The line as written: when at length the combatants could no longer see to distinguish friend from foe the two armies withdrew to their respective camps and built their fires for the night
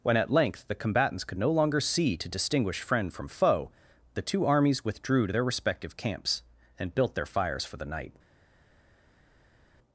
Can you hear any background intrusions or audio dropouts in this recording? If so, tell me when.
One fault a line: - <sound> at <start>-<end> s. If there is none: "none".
none